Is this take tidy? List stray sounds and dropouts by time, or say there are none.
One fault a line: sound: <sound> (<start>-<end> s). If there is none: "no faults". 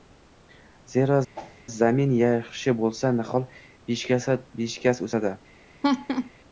sound: whoosh (1.4-1.6 s)
sound: laugh (5.8-6.3 s)